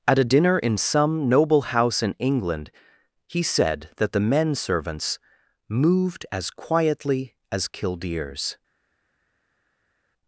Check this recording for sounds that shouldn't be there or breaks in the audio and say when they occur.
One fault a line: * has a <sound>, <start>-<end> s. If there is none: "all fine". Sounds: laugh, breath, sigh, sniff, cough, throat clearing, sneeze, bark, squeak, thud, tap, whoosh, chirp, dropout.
all fine